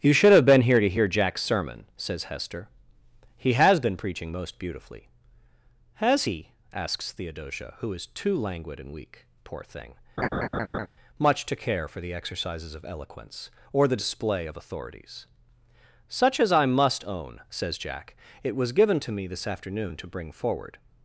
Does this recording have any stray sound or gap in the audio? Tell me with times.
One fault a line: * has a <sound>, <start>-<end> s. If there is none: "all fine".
* has a laugh, 10.2-10.9 s